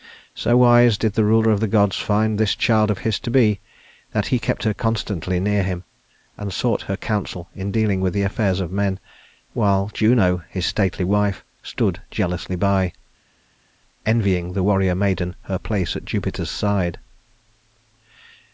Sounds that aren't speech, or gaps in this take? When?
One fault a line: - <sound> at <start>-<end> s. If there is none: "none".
none